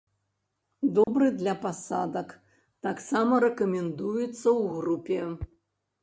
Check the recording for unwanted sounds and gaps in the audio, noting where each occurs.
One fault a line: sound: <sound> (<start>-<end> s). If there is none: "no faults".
sound: dropout (1.0-1.1 s)